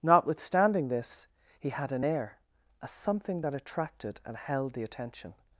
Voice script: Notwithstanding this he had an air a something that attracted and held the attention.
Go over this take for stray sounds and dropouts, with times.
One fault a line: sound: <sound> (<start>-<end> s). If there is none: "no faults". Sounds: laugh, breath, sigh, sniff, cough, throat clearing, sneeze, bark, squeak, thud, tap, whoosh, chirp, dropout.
no faults